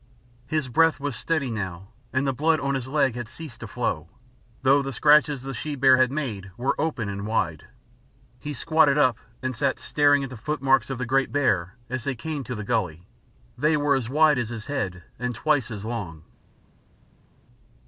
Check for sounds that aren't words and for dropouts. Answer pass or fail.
pass